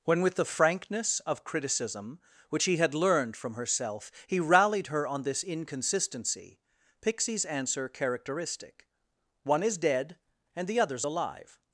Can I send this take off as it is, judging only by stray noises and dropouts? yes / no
yes